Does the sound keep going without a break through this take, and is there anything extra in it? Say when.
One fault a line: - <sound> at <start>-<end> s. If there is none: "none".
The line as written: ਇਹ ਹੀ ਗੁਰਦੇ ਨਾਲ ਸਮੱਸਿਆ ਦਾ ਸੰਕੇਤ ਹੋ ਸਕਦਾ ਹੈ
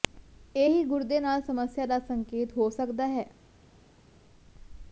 none